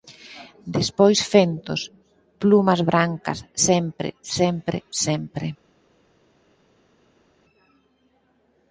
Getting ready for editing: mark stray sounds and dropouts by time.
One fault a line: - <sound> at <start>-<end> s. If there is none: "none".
none